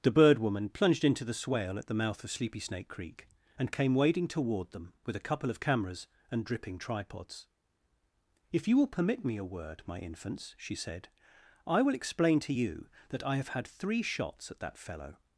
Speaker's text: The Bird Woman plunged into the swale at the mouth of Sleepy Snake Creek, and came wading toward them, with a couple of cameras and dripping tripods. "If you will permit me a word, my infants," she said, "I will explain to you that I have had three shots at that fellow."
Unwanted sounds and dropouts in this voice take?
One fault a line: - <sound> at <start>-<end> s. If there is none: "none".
none